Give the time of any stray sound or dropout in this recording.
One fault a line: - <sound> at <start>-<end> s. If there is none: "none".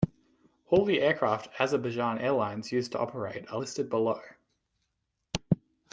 none